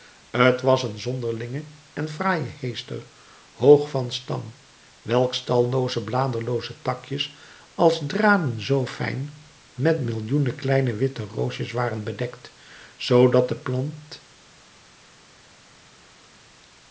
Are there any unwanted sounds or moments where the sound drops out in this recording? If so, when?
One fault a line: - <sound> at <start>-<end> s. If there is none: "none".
none